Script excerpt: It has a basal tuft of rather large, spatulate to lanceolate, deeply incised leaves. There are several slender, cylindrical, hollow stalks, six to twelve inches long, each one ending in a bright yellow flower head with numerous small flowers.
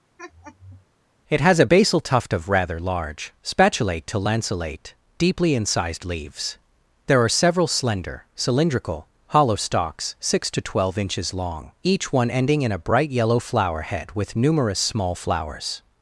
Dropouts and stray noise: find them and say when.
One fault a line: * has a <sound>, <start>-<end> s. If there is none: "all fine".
* has a laugh, 0.2-0.9 s